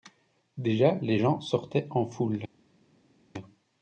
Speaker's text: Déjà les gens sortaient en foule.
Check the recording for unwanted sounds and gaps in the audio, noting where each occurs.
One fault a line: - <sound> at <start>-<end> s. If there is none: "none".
none